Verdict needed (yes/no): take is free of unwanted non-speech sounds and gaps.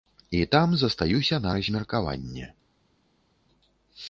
yes